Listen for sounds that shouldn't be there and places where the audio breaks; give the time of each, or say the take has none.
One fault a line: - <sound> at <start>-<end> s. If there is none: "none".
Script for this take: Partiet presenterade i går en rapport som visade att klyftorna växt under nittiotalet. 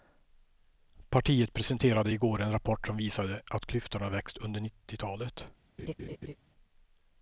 - laugh at 5.8-6.4 s